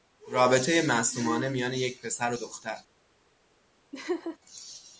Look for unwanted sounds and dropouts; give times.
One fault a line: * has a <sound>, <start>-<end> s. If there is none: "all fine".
* has a laugh, 3.9-4.4 s